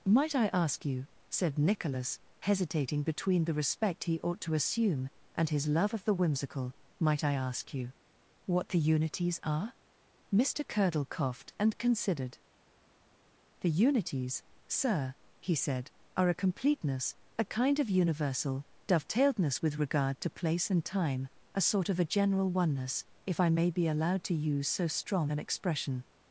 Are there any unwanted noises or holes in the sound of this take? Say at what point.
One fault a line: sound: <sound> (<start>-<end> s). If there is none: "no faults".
no faults